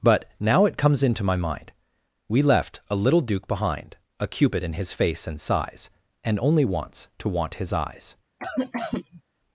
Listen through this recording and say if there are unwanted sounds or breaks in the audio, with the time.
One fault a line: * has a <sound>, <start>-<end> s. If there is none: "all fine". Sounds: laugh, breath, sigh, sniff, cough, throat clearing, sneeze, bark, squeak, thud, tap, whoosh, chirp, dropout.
* has a cough, 8.4-9.2 s